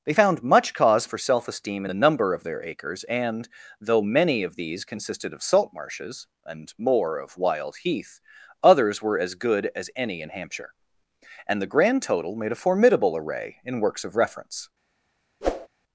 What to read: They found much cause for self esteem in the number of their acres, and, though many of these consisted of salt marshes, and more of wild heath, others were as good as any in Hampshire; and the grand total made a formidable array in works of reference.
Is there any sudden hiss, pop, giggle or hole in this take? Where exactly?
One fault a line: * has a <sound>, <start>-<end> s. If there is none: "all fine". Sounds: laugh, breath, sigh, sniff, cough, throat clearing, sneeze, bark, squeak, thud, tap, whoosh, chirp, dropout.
* has a whoosh, 15.4-15.7 s